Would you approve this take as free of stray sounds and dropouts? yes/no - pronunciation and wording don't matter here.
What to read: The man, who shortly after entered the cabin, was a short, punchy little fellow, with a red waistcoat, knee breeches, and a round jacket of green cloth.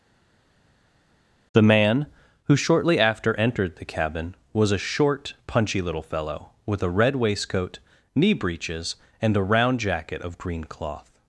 yes